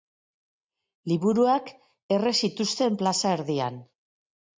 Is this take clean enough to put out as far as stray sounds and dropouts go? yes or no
yes